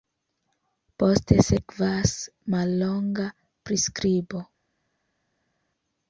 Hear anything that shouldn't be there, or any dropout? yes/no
no